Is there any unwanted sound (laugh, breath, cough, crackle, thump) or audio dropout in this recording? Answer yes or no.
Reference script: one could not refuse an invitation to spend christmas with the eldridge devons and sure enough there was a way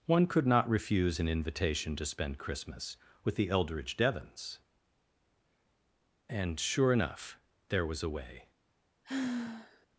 yes